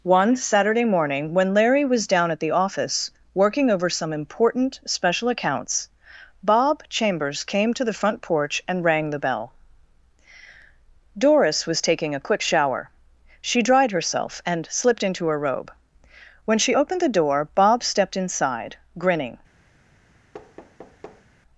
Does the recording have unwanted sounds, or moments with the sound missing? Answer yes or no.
yes